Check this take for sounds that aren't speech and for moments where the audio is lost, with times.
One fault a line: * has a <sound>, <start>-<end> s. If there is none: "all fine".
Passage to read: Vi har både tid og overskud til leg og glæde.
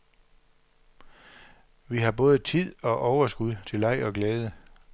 all fine